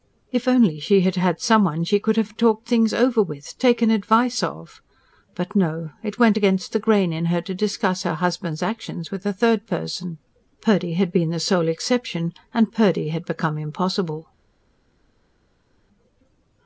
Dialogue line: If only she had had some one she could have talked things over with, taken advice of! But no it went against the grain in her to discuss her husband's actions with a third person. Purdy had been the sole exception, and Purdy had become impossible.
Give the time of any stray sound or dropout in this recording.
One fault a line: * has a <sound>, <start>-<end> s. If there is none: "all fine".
all fine